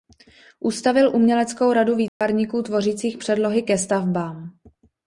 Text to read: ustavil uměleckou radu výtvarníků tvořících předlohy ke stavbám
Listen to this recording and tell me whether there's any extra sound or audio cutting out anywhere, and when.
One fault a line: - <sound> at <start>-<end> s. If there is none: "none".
- dropout at 2.1-2.2 s